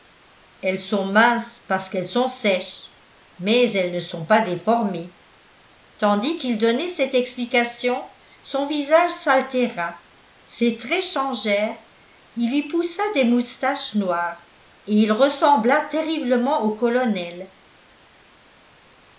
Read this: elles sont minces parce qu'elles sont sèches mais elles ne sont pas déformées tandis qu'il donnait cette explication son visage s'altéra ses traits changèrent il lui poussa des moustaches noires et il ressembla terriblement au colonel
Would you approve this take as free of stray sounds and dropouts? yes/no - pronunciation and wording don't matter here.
yes